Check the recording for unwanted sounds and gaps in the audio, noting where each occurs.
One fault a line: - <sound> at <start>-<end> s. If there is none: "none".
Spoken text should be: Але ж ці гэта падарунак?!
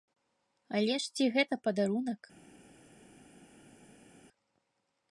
none